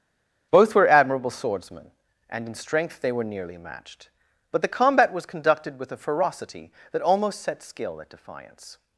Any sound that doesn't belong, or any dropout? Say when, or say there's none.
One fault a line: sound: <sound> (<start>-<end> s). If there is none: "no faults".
no faults